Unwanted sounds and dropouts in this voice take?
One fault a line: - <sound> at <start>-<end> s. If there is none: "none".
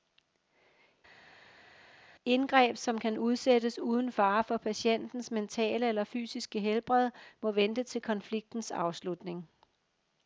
none